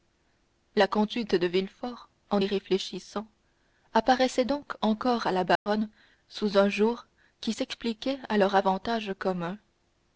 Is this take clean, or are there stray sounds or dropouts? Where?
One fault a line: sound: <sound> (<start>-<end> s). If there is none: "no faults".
sound: dropout (5.6-5.7 s)